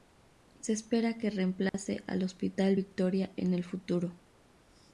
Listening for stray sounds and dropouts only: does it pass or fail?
fail